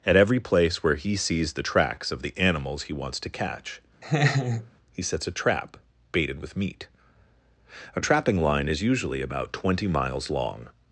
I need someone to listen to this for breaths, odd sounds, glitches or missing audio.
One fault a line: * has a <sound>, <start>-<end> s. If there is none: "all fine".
* has a laugh, 4.0-4.7 s